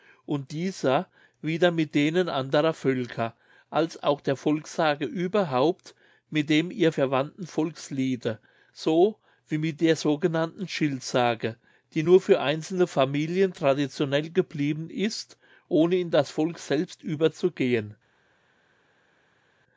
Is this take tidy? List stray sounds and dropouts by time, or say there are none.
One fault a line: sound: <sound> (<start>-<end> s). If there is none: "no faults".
no faults